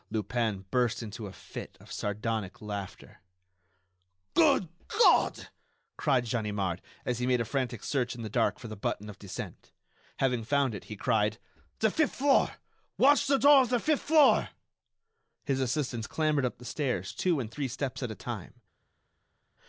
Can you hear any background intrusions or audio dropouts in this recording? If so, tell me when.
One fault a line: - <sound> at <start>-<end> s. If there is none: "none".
none